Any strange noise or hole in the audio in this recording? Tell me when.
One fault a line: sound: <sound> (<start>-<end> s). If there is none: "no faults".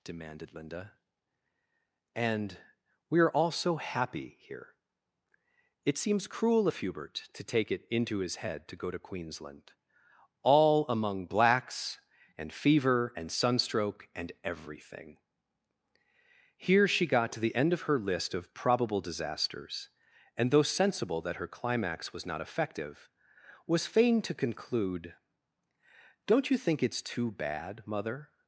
no faults